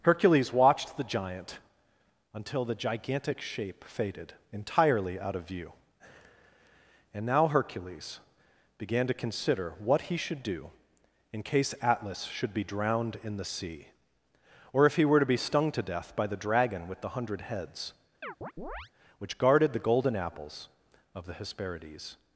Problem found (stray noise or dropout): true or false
true